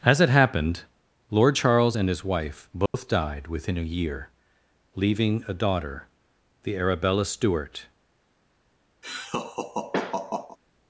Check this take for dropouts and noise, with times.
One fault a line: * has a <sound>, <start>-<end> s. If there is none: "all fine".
* has a dropout, 2.9-2.9 s
* has a laugh, 9.0-10.6 s